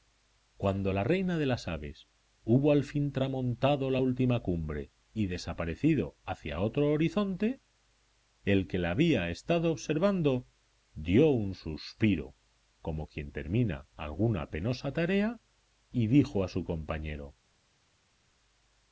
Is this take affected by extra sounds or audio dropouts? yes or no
no